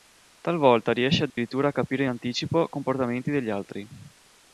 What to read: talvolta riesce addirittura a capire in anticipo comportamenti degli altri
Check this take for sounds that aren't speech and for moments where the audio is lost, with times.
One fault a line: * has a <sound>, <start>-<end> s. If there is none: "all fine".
* has a dropout, 1.3-1.4 s